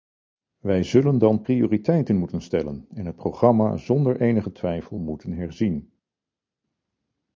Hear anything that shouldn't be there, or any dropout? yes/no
no